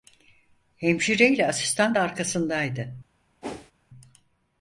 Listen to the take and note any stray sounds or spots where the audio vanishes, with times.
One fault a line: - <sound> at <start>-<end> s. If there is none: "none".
- whoosh at 3.4-3.7 s